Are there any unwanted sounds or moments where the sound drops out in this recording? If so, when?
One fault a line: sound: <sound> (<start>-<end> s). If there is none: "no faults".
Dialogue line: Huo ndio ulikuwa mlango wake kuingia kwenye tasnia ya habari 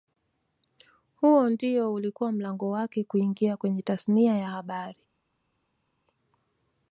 no faults